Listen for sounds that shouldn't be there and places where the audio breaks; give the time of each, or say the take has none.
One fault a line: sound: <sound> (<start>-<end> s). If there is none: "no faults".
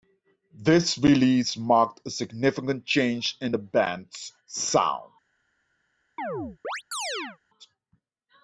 sound: chirp (6.2-7.4 s)